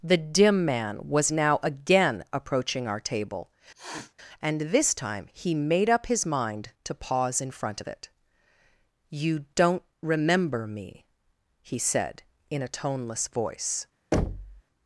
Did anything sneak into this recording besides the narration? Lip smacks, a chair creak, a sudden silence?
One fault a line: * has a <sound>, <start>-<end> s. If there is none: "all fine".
* has a sniff, 3.7-4.1 s
* has a thud, 14.1-14.6 s